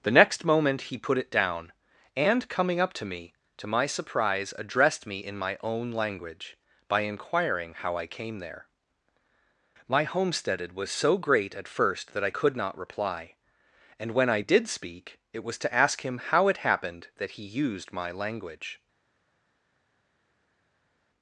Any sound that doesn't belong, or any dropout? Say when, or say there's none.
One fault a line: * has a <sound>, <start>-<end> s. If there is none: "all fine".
all fine